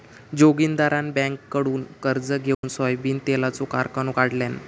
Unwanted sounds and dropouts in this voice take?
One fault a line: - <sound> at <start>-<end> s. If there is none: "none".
- dropout at 2.5-2.6 s